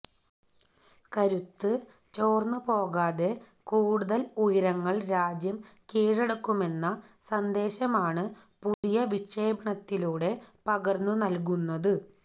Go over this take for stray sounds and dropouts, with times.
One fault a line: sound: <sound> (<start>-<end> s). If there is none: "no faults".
sound: dropout (8.7-8.8 s)